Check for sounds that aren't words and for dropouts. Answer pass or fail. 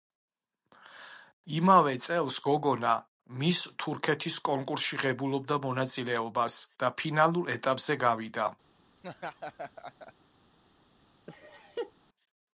fail